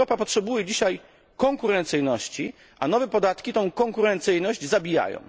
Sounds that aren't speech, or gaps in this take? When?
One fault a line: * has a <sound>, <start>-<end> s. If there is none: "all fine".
all fine